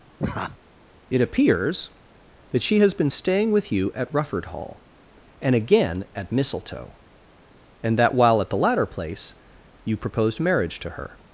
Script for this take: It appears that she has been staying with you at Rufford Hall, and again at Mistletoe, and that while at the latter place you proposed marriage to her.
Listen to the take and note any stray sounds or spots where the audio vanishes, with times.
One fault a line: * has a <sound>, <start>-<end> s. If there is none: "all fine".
* has a laugh, 0.2-0.6 s